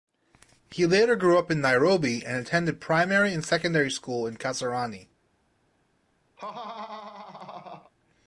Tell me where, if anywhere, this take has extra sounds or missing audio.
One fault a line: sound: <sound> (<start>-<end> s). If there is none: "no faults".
sound: laugh (6.4-7.9 s)